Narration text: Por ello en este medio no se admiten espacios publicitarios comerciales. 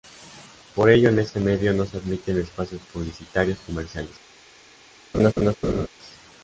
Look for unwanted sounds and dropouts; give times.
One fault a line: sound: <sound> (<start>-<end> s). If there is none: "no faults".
sound: laugh (5.1-5.9 s)